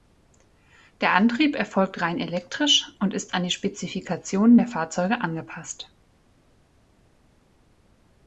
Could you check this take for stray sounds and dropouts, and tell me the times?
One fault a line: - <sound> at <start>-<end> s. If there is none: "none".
none